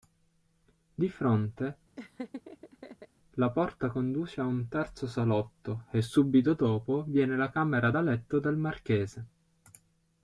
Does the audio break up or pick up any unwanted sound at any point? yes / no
yes